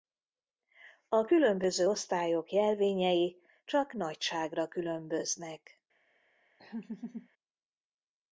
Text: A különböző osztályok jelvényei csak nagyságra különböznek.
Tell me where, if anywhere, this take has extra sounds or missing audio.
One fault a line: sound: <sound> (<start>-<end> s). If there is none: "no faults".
sound: laugh (6.6-7.3 s)